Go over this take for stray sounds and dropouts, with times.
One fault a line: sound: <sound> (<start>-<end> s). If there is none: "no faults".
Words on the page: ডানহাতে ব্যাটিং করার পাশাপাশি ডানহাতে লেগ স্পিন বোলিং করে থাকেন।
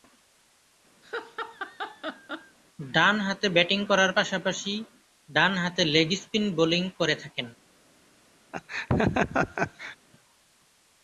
sound: laugh (1.0-2.6 s)
sound: laugh (8.5-10.0 s)